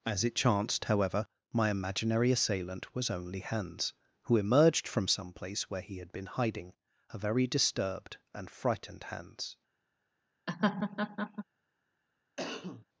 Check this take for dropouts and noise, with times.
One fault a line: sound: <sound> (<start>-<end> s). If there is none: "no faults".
sound: laugh (10.5-11.4 s)
sound: cough (12.4-12.9 s)